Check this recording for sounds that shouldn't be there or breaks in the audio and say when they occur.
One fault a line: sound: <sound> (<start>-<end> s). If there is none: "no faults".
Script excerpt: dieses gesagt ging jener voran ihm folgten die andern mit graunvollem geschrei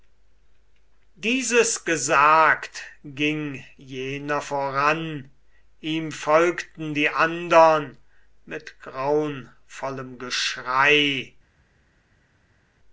no faults